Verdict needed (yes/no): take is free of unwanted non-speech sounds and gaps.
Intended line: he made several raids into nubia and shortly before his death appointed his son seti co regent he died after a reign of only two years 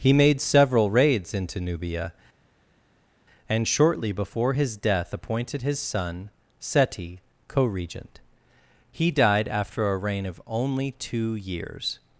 yes